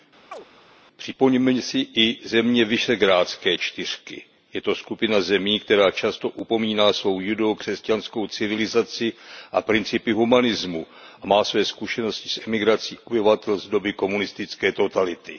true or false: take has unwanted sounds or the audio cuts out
true